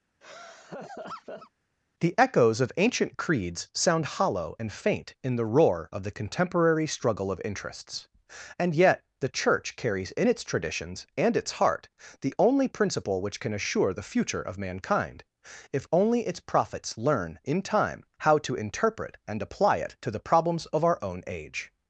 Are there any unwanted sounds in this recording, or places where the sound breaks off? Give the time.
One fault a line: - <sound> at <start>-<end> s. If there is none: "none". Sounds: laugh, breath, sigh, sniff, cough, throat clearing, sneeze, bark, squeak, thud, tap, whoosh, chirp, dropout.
- laugh at 0.2-1.5 s